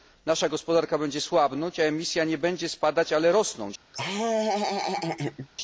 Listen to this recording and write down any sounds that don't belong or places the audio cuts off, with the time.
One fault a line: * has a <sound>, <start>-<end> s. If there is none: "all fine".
* has a laugh, 3.9-5.5 s